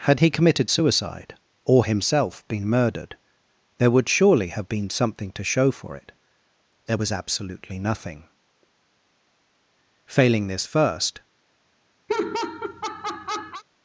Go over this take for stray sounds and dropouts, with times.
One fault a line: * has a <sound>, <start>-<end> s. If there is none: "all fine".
* has a laugh, 12.1-13.6 s